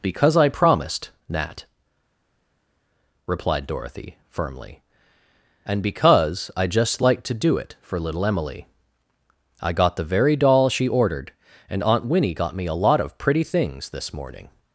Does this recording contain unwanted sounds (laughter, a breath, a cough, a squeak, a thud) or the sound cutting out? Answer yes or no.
no